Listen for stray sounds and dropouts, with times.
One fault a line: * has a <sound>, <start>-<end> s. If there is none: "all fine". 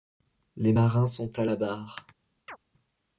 * has a chirp, 2.5-2.6 s